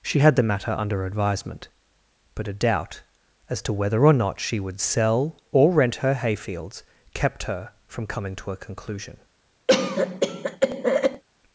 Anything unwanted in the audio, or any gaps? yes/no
yes